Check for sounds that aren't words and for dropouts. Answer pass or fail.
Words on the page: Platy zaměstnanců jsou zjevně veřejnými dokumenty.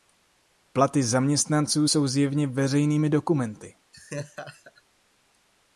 fail